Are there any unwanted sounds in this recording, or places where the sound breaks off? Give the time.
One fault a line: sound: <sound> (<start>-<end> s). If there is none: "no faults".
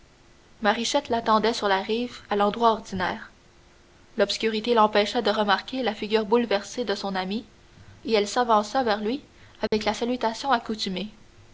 sound: dropout (9.7-9.7 s)